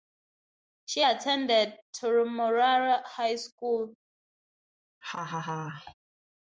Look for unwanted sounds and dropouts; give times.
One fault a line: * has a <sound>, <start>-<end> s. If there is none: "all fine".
* has a laugh, 5.0-5.9 s